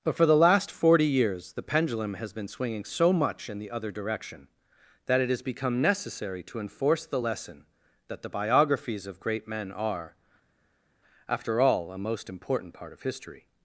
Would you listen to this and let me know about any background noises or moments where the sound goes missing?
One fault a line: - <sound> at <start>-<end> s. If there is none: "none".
none